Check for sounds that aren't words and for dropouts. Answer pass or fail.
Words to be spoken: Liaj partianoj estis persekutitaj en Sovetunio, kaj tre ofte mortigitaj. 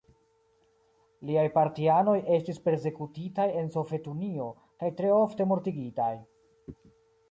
pass